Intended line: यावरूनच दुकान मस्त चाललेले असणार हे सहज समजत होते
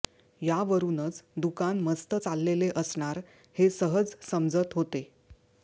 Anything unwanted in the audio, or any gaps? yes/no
no